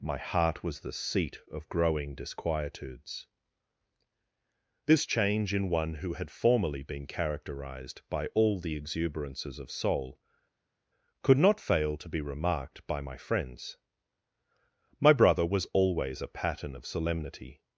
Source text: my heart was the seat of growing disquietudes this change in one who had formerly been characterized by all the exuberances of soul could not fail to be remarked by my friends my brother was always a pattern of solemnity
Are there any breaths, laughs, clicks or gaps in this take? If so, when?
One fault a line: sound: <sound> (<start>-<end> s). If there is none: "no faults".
no faults